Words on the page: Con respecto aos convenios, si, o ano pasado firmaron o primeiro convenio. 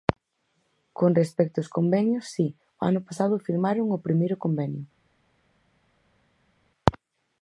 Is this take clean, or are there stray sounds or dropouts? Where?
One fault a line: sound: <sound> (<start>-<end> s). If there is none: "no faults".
no faults